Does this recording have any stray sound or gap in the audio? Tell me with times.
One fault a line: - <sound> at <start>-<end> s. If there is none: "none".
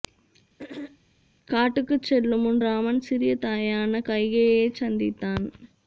- throat clearing at 0.6-1.0 s